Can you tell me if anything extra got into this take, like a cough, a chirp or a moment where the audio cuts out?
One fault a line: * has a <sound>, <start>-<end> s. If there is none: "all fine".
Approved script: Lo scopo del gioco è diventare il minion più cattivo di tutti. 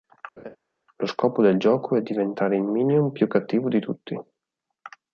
* has a laugh, 0.4-0.6 s